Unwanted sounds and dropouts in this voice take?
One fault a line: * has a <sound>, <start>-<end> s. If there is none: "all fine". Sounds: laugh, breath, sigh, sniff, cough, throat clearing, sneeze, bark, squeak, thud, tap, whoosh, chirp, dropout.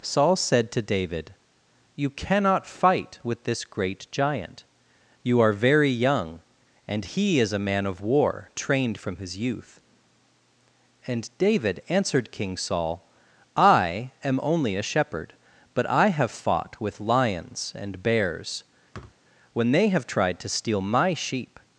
* has a thud, 18.9-19.2 s